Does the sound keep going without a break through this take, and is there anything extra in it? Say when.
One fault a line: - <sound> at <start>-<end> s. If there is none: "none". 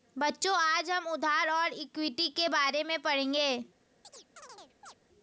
- chirp at 4.0-4.9 s